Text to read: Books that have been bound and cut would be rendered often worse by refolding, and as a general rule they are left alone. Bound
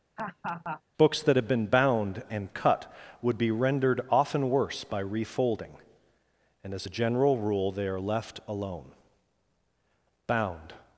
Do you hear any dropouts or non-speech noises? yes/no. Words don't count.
yes